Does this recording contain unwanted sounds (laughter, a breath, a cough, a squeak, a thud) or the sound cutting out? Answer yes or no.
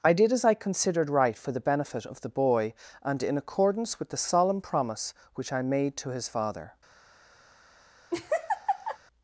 yes